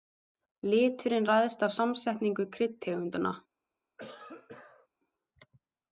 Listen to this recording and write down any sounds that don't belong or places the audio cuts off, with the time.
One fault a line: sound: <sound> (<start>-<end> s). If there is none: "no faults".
sound: cough (4.0-4.9 s)